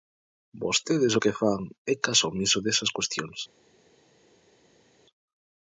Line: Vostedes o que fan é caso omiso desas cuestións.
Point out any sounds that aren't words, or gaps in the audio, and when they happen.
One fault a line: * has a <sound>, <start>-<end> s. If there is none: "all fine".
all fine